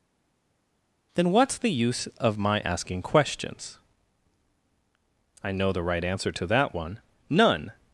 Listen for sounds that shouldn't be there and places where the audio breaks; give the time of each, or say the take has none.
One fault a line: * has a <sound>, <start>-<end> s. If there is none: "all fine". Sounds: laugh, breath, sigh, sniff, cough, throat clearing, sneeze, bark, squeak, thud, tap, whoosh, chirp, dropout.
all fine